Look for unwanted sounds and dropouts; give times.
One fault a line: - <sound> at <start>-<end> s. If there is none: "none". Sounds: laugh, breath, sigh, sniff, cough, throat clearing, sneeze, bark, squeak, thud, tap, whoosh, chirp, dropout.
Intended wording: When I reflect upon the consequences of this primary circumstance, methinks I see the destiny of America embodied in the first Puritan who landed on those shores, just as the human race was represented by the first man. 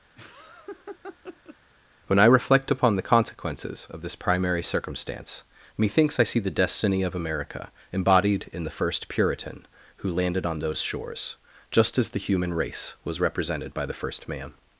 - laugh at 0.2-1.6 s